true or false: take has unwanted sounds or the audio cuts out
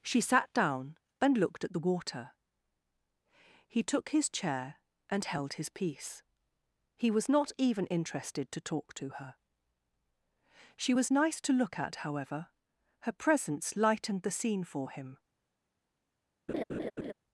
true